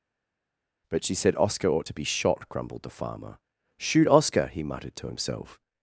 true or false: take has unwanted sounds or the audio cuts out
false